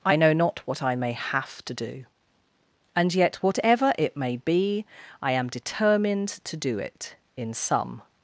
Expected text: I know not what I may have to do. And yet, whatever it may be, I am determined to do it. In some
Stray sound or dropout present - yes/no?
no